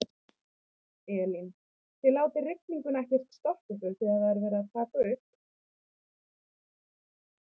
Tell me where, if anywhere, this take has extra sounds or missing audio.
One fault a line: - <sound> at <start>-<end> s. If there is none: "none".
none